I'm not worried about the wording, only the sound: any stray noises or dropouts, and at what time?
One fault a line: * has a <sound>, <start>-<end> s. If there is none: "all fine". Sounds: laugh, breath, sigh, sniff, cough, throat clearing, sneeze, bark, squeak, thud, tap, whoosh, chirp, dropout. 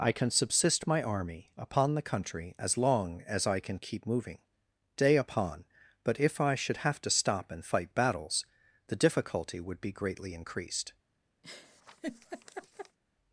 * has a laugh, 11.4-13.0 s